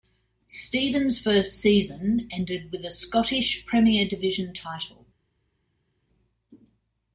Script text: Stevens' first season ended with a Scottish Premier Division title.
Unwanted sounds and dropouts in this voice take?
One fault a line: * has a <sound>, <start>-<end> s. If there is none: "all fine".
all fine